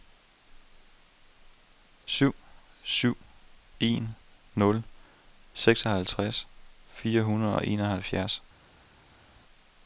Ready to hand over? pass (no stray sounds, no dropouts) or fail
pass